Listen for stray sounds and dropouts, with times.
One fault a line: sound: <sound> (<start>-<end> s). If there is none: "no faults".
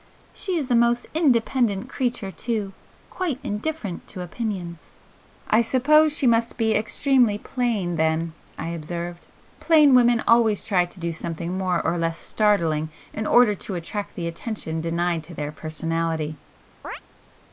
sound: chirp (16.8-17.0 s)